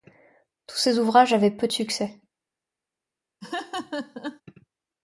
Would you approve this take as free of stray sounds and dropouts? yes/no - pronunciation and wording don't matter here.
no